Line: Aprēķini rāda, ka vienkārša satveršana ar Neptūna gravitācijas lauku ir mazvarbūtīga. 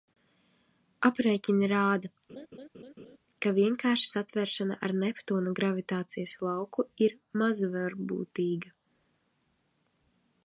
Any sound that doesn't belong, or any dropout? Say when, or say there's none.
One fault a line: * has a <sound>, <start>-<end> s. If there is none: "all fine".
* has a laugh, 2.3-3.2 s